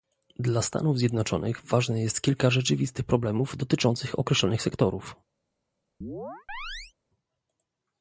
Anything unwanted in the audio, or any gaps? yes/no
yes